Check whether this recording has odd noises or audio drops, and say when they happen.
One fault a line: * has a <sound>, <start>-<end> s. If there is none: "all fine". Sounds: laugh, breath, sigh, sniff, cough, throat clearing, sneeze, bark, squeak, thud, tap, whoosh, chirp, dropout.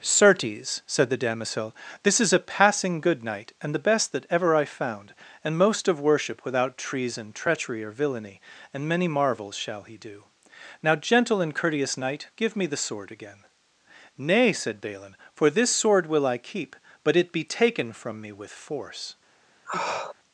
* has a sniff, 19.6-20.1 s